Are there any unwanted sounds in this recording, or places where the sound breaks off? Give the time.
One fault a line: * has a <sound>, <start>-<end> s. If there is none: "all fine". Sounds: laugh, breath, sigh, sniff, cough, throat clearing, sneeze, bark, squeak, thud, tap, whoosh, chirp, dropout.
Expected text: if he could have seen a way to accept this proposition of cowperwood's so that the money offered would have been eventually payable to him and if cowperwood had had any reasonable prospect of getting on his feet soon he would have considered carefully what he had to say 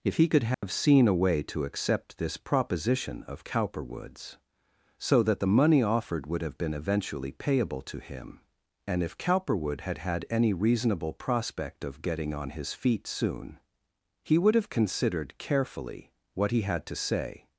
* has a dropout, 0.5-0.6 s